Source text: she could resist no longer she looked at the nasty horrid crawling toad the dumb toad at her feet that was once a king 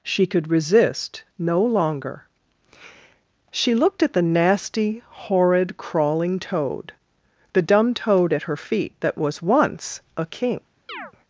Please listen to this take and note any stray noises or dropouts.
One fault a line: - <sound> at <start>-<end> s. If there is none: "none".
- chirp at 10.9-11.1 s